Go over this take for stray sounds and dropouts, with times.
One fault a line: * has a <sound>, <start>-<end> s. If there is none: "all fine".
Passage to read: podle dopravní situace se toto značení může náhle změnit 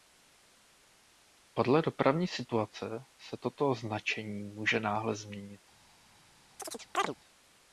* has a chirp, 6.6-7.1 s